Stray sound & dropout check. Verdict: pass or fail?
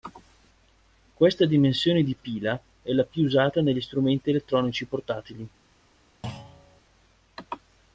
fail